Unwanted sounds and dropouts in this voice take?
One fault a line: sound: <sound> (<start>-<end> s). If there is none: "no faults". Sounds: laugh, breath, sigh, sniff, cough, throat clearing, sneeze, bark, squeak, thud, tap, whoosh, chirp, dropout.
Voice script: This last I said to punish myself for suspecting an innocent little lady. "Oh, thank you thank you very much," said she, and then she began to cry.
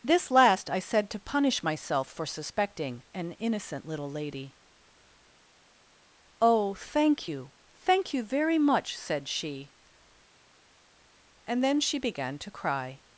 no faults